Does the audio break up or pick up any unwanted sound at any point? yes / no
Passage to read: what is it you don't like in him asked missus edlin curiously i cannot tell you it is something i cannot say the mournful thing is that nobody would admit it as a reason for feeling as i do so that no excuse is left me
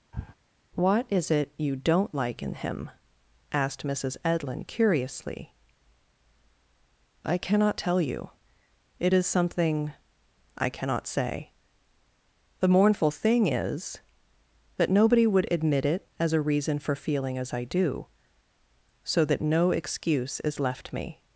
yes